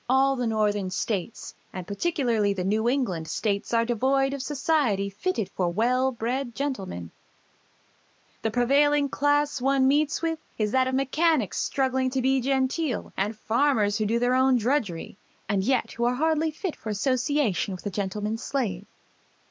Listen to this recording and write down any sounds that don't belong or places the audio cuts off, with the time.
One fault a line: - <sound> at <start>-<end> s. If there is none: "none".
none